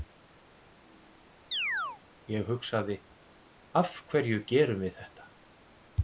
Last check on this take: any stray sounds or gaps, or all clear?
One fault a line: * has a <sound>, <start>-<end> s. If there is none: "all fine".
* has a chirp, 1.5-2.0 s